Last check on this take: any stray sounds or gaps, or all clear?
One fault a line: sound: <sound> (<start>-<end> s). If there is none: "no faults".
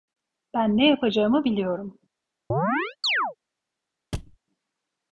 sound: chirp (2.5-3.4 s)
sound: thud (4.1-4.4 s)